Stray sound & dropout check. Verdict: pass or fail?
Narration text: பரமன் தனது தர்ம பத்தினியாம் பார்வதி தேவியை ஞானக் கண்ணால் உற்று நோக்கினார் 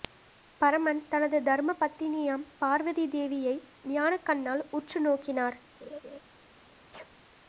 fail